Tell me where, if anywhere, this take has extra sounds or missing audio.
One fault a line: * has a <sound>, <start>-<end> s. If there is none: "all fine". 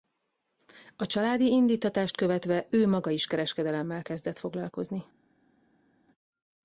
all fine